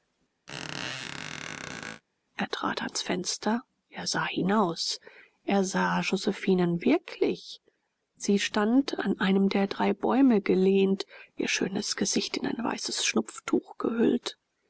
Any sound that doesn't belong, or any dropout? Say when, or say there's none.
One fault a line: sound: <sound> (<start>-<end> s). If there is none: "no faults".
sound: squeak (0.5-2.0 s)